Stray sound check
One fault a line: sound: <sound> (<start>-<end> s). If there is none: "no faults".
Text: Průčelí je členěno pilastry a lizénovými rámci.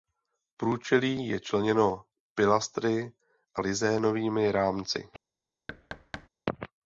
sound: thud (5.7-6.3 s)